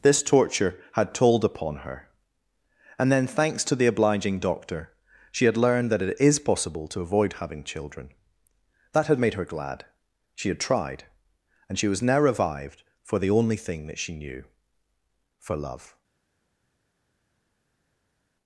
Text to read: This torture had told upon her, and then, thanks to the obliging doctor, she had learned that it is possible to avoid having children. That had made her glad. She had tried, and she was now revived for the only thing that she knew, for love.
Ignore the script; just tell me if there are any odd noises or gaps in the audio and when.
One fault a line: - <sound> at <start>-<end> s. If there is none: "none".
none